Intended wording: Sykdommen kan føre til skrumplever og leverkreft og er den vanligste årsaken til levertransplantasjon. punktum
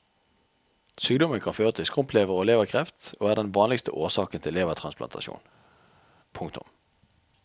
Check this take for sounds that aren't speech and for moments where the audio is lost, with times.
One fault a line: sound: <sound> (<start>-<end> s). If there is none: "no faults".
no faults